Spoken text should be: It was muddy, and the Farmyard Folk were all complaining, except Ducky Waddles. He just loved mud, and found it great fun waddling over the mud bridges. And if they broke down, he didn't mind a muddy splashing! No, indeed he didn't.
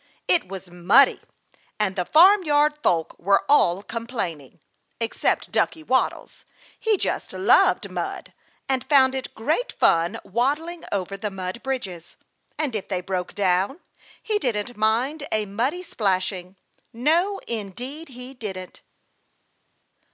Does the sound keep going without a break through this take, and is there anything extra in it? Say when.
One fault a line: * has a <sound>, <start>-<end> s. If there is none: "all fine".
all fine